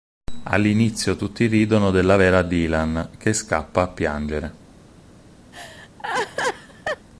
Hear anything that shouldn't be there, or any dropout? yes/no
yes